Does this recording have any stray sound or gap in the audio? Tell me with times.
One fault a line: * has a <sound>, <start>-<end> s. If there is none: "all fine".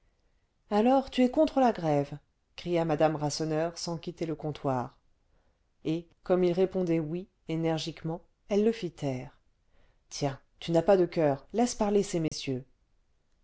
* has a dropout, 12.3-12.3 s